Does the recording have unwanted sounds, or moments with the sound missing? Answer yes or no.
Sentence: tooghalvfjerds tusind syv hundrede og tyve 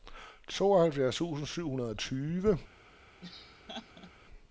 yes